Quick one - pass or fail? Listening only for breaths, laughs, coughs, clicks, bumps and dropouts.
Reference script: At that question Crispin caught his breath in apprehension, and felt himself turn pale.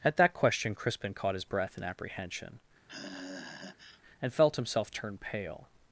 fail